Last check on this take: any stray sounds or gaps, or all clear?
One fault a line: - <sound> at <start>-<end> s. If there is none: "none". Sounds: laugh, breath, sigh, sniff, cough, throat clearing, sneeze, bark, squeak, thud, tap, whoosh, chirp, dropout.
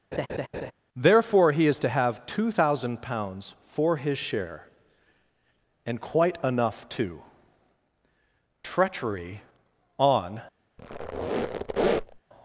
- laugh at 0.1-0.7 s
- squeak at 10.8-12.2 s